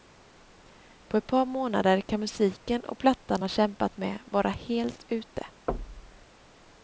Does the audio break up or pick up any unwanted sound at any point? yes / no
yes